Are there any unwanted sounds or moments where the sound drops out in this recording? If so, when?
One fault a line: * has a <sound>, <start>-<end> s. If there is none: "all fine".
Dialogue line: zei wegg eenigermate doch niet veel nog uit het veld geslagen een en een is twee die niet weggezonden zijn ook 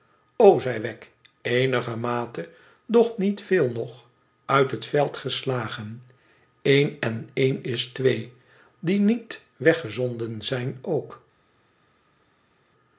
all fine